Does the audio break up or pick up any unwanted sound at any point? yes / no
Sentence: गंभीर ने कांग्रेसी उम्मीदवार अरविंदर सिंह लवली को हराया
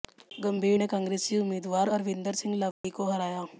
yes